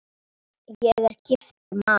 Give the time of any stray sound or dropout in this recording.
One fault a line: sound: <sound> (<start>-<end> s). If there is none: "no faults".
sound: dropout (1.6-1.7 s)